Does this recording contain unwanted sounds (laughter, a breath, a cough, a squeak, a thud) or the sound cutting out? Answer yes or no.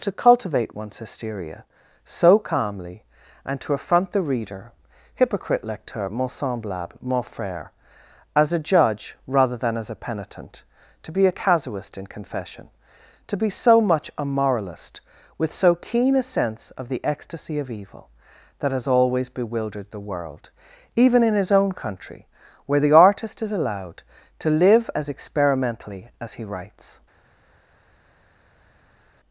no